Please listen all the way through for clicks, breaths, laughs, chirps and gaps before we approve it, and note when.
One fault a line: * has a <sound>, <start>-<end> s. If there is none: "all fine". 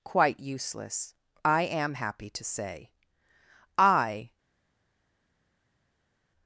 all fine